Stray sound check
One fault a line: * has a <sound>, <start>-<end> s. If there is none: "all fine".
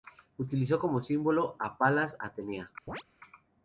* has a chirp, 2.9-3.0 s